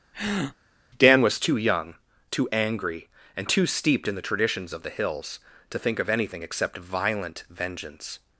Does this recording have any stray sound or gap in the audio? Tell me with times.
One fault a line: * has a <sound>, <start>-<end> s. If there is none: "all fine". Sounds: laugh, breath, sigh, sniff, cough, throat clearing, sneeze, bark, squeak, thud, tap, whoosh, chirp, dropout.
* has a breath, 0.1-0.6 s